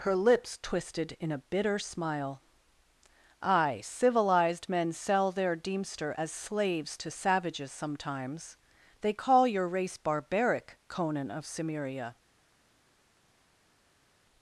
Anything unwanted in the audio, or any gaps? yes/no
no